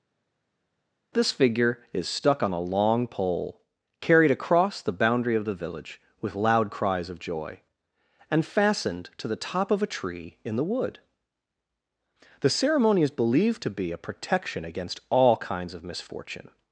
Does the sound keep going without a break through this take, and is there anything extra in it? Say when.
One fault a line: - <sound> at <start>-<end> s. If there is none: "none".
none